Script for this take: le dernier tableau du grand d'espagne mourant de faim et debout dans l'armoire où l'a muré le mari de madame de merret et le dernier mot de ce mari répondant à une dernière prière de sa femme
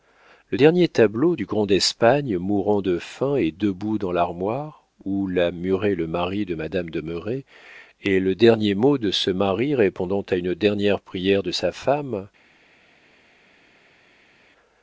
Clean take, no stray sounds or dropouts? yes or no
yes